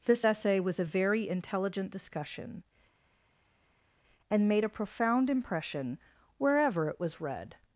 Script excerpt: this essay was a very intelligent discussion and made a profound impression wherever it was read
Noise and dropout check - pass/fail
pass